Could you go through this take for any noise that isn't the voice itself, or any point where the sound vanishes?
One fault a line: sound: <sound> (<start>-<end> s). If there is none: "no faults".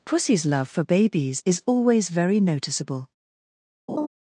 sound: laugh (3.9-4.1 s)